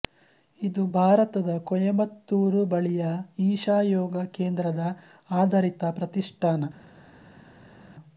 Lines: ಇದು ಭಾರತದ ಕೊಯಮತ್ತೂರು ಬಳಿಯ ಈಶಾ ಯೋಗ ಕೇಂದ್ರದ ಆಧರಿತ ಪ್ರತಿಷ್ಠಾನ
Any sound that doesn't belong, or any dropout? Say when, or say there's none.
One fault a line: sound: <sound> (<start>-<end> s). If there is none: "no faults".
no faults